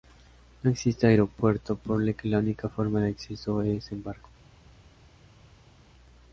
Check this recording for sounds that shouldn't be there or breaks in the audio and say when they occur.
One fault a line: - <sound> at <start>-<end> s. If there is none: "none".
none